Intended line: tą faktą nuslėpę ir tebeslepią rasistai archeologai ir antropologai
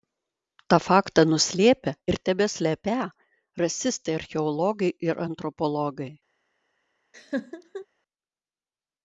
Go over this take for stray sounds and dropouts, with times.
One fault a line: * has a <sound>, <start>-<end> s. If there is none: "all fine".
* has a laugh, 7.1-7.9 s